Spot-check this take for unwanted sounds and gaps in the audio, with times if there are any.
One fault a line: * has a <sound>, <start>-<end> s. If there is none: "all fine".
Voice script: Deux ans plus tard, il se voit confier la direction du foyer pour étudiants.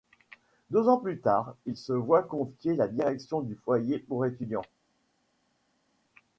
all fine